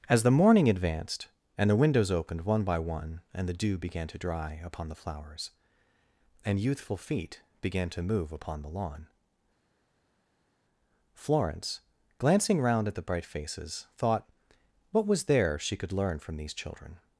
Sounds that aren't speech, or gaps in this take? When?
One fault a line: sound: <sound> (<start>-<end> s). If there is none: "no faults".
no faults